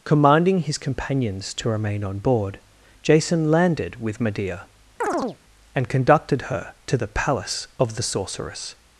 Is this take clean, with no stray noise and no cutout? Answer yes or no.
no